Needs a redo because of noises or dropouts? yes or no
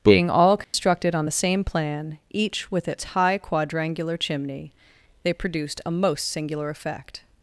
yes